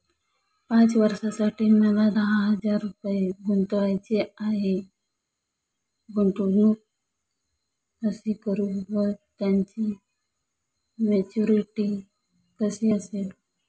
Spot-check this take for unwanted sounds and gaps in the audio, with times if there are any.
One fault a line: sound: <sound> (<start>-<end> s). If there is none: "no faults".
no faults